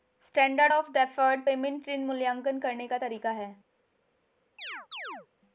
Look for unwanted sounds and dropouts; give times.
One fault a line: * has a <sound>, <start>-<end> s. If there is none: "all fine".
* has a chirp, 4.6-5.3 s